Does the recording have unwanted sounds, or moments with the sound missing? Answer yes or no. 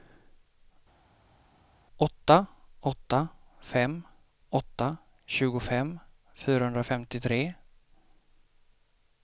no